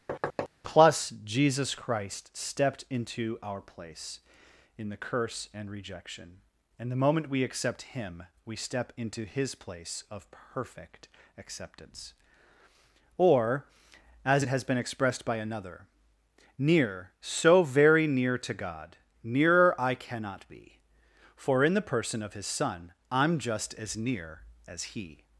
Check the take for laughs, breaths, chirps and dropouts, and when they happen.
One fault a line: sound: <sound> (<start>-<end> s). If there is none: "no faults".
sound: thud (0.1-0.5 s)